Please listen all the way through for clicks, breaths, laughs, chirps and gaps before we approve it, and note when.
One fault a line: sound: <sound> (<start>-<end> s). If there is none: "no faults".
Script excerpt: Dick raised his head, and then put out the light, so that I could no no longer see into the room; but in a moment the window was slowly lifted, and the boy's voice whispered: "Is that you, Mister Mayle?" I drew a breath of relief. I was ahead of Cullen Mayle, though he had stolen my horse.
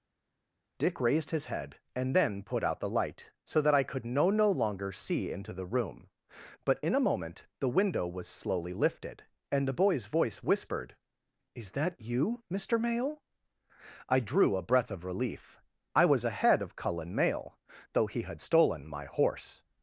no faults